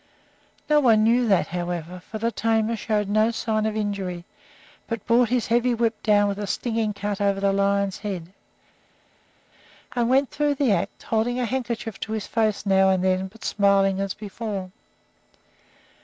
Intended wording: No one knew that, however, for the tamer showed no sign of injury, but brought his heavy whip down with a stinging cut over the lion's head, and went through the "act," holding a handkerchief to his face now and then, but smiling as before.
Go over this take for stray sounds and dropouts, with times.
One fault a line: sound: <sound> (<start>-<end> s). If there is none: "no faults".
no faults